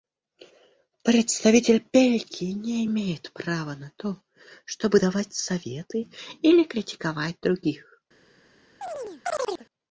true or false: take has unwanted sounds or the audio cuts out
true